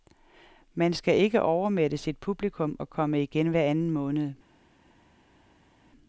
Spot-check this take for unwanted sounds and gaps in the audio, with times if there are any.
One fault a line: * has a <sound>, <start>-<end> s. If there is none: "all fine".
all fine